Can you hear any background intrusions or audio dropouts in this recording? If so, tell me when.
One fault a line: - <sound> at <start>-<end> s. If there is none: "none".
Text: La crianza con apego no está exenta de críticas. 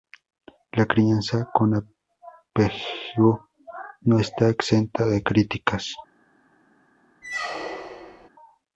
- squeak at 7.2-8.3 s